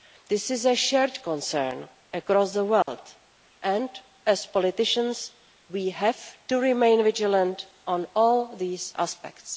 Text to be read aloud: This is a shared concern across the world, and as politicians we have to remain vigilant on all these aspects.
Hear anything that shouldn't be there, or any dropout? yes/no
yes